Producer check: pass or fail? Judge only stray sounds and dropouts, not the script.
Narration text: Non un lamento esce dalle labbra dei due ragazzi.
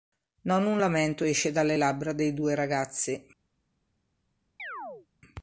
fail